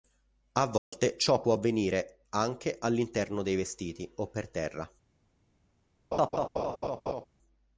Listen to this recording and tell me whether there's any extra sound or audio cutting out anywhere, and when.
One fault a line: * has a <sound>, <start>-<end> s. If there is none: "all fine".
* has a dropout, 0.8-0.9 s
* has a laugh, 6.1-7.3 s